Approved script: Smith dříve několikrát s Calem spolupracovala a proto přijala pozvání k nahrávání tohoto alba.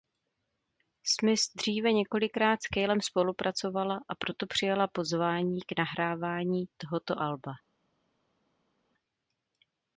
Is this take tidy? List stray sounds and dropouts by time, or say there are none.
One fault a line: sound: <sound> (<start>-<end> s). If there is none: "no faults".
no faults